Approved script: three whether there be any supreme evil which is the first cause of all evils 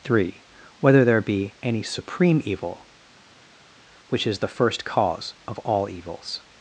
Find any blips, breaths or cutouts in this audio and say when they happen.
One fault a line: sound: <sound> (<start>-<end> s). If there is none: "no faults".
no faults